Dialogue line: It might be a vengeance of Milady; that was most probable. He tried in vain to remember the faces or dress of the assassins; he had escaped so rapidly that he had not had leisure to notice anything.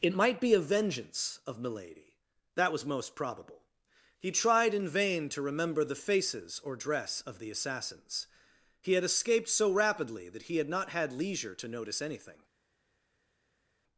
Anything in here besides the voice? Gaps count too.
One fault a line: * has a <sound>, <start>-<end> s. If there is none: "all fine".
all fine